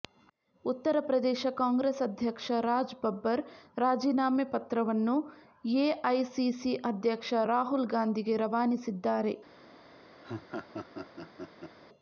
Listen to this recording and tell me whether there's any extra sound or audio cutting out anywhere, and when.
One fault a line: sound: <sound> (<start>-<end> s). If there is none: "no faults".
sound: laugh (10.2-11.8 s)